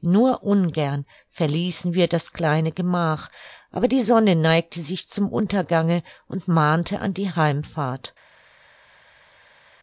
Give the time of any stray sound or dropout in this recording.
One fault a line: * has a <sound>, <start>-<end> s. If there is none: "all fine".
all fine